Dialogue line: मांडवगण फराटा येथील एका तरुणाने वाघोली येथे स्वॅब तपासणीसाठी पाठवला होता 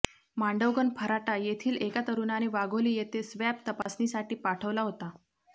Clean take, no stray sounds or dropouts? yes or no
no